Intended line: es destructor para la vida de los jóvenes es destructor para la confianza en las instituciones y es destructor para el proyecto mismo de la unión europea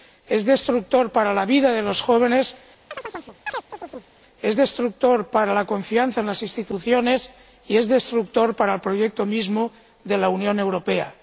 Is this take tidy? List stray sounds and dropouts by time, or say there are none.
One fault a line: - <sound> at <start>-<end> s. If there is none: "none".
- chirp at 2.9-4.1 s